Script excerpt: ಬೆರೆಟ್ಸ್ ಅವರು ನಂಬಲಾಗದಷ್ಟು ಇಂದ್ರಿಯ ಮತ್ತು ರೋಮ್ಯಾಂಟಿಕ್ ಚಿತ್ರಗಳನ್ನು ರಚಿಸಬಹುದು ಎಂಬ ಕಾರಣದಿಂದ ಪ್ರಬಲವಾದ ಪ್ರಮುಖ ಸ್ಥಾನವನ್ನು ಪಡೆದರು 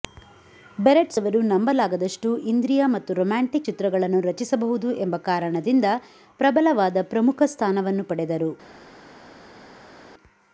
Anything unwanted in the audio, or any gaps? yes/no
no